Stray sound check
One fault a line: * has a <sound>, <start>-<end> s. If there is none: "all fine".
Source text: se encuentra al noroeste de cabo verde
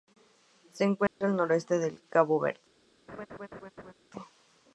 * has a dropout, 1.1-1.2 s
* has a laugh, 3.1-3.9 s